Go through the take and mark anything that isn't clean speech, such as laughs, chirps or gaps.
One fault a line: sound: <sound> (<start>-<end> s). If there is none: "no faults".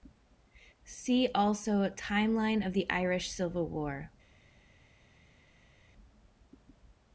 no faults